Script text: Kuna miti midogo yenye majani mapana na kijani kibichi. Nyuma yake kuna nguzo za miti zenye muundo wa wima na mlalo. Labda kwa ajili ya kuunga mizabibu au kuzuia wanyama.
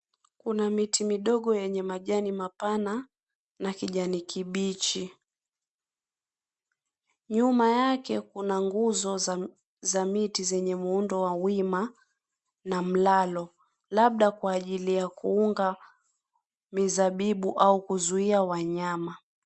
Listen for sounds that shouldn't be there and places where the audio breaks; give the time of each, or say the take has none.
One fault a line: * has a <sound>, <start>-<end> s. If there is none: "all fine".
all fine